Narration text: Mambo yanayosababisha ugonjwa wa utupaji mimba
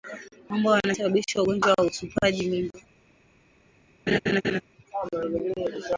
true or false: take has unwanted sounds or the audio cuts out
true